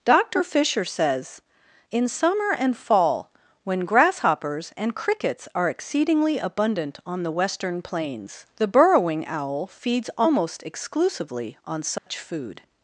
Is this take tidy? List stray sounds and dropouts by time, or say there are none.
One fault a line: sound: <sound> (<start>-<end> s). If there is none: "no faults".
sound: dropout (12.0-12.1 s)